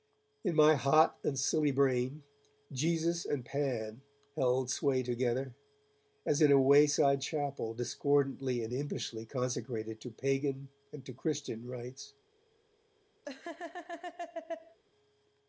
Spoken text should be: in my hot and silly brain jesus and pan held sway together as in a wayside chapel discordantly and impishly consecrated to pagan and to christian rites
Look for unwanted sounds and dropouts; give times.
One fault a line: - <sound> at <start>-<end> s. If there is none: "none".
- laugh at 13.2-14.8 s